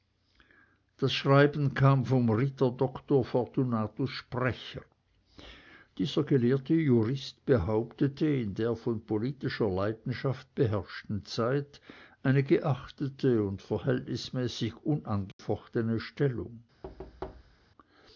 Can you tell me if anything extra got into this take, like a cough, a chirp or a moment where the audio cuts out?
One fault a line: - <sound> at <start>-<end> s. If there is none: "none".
- dropout at 15.3-15.4 s
- thud at 16.8-17.7 s